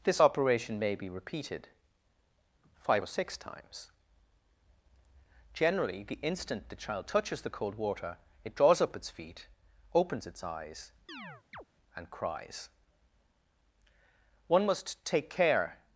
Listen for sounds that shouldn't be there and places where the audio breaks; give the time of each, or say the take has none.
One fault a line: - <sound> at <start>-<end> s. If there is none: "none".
- chirp at 11.1-11.6 s